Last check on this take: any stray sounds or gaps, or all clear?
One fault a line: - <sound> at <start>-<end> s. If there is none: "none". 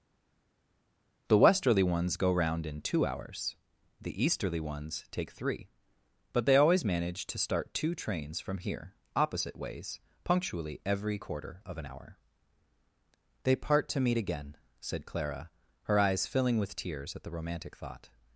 none